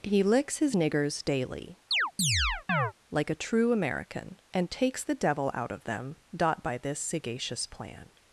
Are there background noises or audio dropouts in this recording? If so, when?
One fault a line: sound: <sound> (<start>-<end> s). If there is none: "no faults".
sound: chirp (1.9-2.9 s)